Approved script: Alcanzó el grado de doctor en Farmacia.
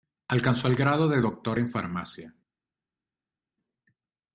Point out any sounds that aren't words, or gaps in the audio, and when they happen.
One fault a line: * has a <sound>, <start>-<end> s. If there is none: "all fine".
all fine